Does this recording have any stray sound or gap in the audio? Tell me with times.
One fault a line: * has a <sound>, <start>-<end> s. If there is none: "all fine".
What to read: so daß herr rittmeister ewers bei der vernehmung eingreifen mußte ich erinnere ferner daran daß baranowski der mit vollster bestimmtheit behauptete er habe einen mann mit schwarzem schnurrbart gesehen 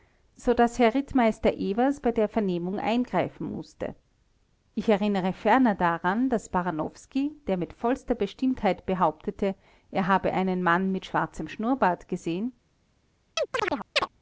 * has a chirp, 13.4-14.1 s